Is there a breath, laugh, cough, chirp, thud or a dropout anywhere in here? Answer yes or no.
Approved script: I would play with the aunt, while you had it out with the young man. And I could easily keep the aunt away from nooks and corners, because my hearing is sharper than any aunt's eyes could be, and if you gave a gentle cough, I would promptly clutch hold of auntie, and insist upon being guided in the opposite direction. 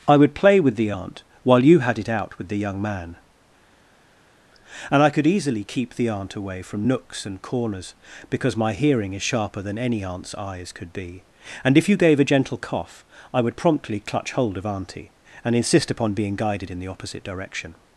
no